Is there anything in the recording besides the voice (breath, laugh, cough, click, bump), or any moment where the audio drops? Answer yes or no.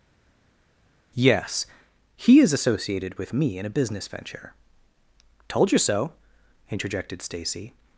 no